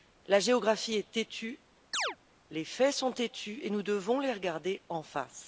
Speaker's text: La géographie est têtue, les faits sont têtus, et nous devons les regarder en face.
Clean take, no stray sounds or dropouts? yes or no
no